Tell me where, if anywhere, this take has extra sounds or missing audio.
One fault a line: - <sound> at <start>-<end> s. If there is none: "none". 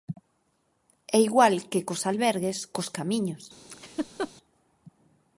- laugh at 3.7-4.3 s